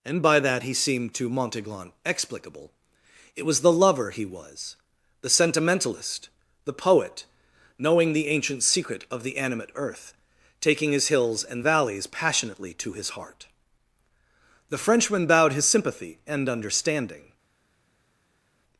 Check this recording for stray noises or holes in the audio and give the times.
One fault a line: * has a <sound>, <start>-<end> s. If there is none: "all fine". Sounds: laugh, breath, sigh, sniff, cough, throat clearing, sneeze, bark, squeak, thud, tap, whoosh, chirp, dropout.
all fine